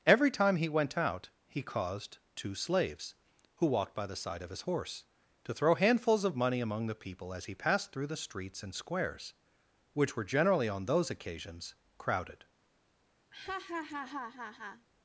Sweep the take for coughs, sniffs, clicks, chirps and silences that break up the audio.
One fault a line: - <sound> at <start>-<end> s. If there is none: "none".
- laugh at 13.3-14.9 s